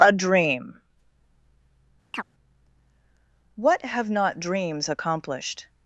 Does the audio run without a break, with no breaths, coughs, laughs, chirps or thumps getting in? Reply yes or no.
no